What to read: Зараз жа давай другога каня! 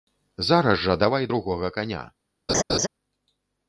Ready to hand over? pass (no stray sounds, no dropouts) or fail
fail